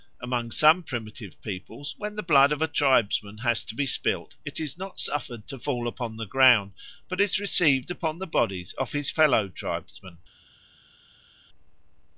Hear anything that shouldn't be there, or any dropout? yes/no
no